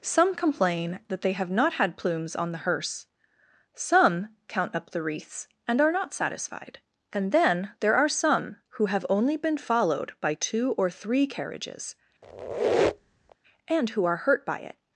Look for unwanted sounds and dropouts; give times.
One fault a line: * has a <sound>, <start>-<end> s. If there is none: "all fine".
* has a squeak, 12.2-13.4 s